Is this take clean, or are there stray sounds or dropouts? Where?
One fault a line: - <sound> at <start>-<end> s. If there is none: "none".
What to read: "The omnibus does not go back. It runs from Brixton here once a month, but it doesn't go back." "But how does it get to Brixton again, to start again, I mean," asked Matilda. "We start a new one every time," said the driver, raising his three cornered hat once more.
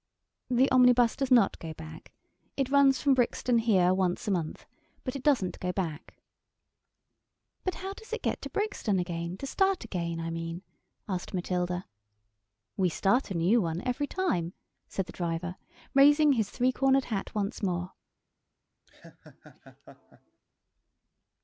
- laugh at 18.9-20.4 s